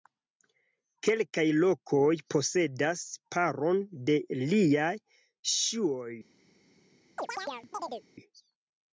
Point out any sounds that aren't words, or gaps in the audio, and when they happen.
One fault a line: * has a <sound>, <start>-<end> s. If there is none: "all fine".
* has a chirp, 7.2-8.1 s